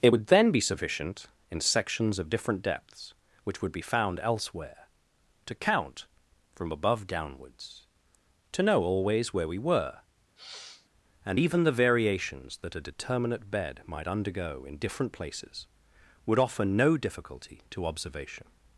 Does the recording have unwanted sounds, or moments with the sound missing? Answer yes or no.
yes